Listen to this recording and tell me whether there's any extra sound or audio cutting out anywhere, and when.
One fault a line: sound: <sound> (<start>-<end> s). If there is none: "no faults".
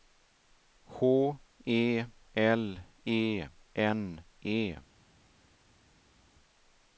no faults